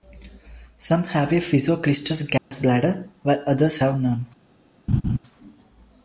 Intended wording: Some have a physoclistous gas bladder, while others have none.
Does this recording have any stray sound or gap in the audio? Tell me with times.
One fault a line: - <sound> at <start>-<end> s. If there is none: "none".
- dropout at 2.4-2.5 s
- laugh at 4.9-5.2 s